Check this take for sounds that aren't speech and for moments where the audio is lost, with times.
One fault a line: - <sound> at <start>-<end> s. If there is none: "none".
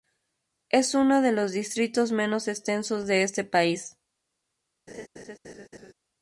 - laugh at 4.9-5.9 s